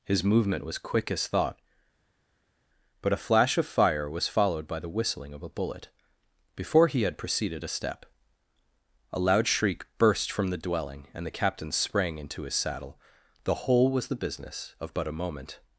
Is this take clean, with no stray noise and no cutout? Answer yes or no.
yes